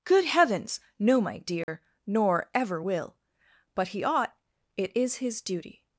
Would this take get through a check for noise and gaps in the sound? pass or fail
fail